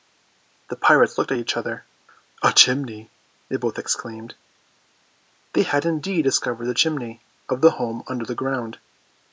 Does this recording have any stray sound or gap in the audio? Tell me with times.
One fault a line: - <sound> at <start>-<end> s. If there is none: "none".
none